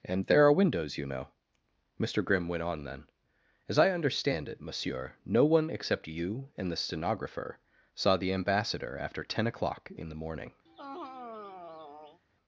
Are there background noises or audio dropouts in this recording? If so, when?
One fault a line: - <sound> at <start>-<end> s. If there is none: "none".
- sigh at 10.7-12.2 s